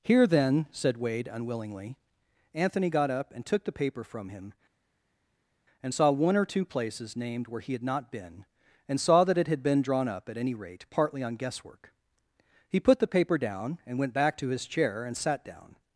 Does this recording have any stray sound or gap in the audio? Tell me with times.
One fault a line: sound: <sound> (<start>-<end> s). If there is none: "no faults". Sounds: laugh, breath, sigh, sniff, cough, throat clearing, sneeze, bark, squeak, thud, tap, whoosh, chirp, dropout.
no faults